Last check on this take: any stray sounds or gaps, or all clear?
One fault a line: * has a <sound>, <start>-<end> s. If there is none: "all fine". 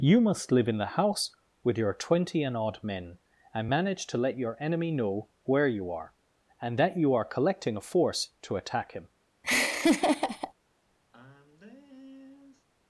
* has a laugh, 9.4-10.5 s
* has a sigh, 11.1-12.7 s